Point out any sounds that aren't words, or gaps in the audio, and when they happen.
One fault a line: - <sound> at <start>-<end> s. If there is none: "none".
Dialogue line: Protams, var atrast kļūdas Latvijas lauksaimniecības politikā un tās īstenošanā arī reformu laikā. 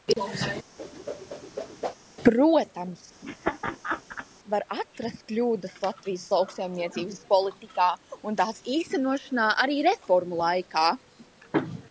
- whoosh at 0.8-1.9 s
- laugh at 3.2-4.3 s